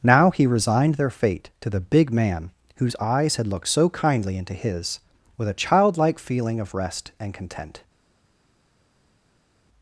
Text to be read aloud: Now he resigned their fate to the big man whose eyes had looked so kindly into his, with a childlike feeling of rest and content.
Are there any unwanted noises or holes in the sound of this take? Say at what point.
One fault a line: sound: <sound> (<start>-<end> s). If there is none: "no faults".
no faults